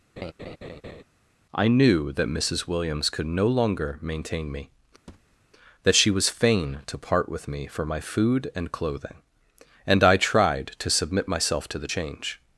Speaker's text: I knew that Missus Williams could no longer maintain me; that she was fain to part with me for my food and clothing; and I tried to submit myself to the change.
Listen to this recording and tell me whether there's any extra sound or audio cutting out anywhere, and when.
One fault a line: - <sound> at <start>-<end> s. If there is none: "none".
- laugh at 0.2-1.0 s
- thud at 5.1-5.4 s